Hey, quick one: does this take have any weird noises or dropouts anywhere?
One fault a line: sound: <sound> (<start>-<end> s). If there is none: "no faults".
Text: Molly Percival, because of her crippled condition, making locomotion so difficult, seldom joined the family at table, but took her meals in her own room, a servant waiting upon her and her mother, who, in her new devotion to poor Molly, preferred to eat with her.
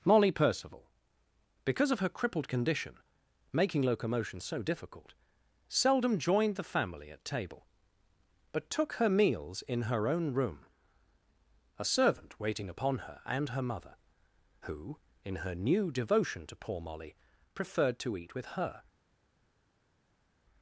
no faults